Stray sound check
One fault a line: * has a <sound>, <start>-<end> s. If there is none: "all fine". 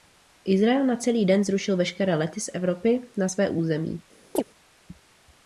* has a chirp, 4.4-4.4 s